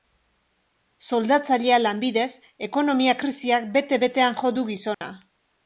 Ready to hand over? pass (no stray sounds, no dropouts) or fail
fail